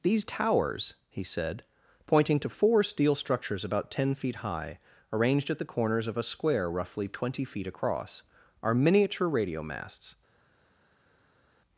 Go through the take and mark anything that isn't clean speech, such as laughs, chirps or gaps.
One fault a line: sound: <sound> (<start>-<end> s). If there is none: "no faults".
no faults